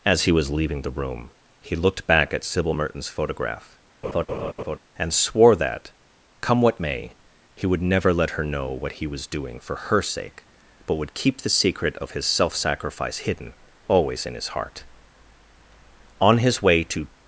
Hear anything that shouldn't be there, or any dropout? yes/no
yes